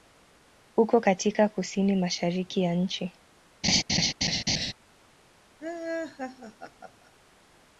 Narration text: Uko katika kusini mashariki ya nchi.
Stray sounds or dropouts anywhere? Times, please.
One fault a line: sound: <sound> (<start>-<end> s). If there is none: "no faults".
sound: laugh (3.6-4.7 s)
sound: laugh (5.6-7.1 s)